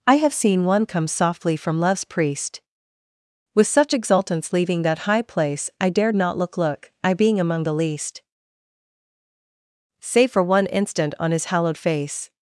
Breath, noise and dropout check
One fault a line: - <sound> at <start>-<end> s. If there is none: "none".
none